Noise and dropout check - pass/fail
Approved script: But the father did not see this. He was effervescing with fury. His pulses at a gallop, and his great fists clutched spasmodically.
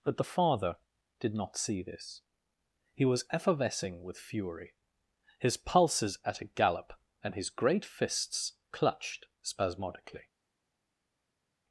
pass